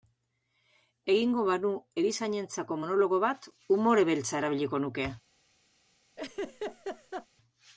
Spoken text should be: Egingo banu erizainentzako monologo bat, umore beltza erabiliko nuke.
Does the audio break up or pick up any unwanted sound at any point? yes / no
yes